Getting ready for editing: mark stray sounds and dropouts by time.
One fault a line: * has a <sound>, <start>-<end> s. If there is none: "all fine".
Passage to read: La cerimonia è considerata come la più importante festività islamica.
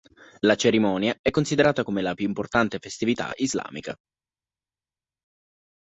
all fine